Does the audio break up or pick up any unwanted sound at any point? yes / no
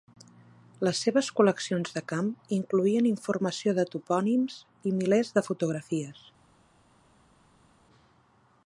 no